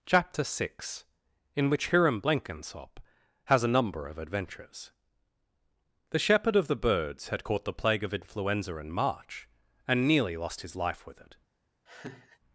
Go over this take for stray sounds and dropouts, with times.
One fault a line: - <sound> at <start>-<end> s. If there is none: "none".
- laugh at 11.9-12.4 s